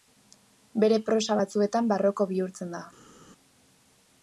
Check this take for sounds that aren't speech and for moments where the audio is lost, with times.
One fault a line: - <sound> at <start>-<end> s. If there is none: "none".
none